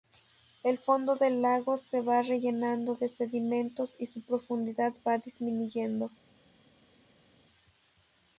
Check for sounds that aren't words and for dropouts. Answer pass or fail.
pass